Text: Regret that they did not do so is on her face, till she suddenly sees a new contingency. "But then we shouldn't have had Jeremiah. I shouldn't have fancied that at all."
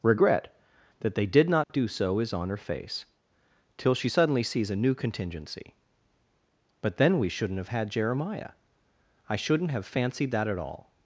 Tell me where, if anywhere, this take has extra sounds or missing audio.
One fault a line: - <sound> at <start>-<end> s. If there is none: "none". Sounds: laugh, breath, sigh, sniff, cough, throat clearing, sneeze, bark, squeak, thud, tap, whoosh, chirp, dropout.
- dropout at 1.6-1.7 s